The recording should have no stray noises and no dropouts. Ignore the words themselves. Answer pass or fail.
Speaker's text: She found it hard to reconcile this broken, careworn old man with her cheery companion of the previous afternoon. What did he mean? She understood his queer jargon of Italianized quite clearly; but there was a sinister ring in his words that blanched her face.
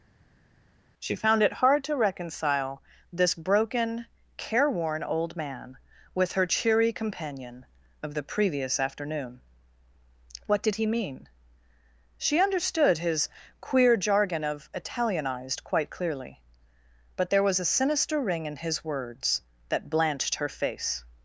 pass